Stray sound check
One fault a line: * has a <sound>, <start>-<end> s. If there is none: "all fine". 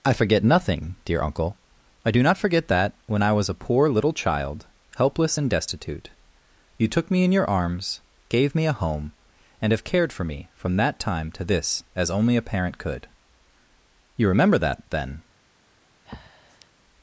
* has a breath, 16.0-16.7 s